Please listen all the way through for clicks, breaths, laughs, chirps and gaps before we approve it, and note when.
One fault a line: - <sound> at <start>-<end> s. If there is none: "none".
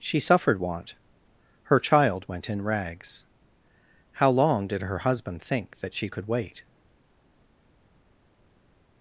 none